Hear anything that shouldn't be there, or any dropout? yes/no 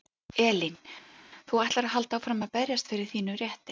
no